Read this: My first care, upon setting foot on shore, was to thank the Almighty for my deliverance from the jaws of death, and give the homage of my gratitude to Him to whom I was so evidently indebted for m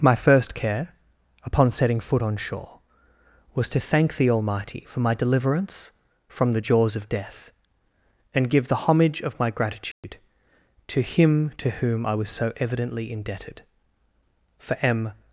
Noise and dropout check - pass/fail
fail